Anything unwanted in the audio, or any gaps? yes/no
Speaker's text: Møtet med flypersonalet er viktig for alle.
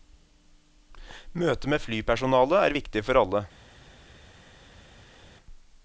no